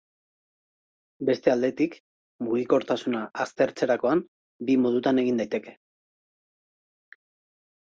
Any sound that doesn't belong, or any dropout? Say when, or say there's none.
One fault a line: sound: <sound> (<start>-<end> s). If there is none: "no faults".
no faults